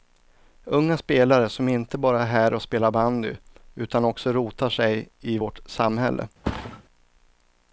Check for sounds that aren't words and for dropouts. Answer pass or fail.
fail